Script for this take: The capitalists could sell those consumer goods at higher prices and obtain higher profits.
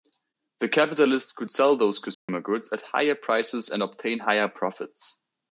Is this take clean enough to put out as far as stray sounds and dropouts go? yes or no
no